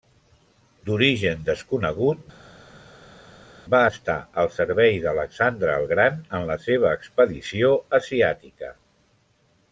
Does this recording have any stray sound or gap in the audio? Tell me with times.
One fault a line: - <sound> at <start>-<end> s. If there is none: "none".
none